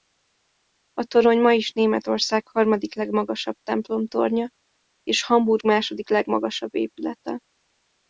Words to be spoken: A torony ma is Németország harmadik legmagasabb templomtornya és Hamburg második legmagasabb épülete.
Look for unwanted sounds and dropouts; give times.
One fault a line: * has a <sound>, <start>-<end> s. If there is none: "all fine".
all fine